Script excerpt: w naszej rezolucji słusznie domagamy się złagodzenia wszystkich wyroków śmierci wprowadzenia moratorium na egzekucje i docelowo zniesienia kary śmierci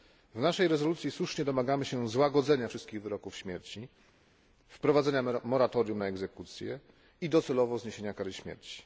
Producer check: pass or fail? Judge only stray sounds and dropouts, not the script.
pass